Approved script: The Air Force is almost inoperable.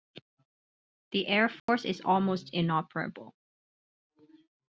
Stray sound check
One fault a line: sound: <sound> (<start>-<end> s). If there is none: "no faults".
sound: dropout (1.6-1.7 s)